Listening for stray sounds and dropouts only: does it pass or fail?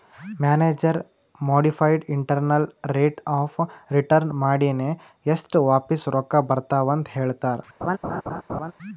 fail